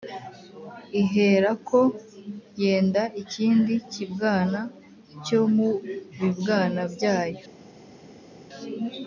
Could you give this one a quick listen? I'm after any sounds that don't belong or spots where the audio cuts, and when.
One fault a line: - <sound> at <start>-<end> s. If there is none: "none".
none